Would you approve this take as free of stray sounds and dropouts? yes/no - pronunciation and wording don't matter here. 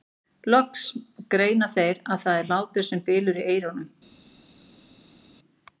yes